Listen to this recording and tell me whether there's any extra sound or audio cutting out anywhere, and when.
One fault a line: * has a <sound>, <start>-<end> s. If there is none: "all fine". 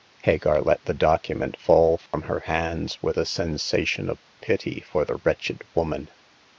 * has a dropout, 2.1-2.1 s